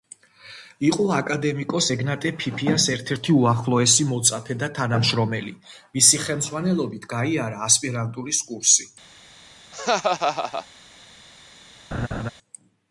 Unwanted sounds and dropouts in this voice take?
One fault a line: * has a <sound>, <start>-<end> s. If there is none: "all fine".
* has a laugh, 9.7-10.7 s
* has a laugh, 11.9-12.3 s